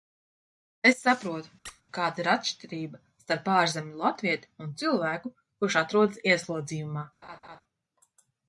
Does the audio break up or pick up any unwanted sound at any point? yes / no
yes